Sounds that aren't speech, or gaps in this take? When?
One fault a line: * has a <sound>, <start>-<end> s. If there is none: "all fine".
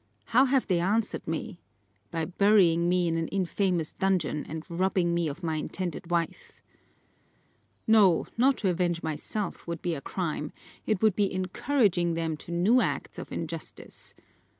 all fine